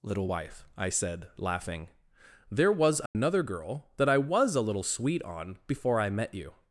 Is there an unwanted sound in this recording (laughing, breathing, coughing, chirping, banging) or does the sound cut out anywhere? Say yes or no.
yes